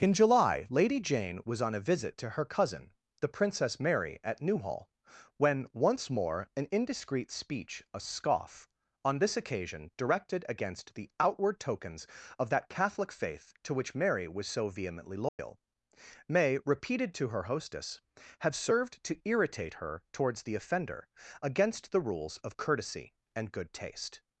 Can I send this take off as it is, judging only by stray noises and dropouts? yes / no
no